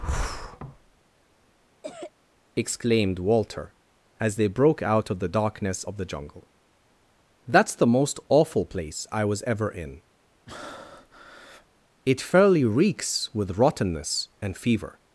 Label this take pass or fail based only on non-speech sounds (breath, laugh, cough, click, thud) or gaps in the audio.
fail